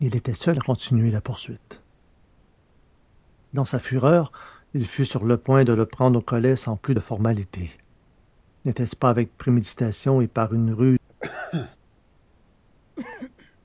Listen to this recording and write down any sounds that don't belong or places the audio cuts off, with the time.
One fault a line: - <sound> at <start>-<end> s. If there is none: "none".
- sneeze at 11.1-11.8 s
- cough at 13.0-13.6 s